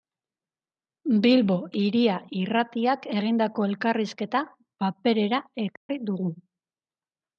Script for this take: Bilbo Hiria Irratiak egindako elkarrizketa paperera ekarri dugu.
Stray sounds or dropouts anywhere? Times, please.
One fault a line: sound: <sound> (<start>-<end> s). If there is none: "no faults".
sound: dropout (5.8-5.9 s)